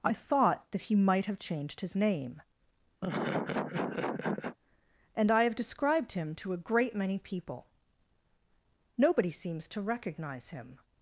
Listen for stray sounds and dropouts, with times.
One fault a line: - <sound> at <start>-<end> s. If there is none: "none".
- laugh at 3.0-4.6 s